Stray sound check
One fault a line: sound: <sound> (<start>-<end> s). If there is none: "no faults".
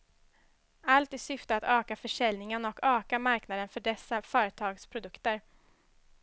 no faults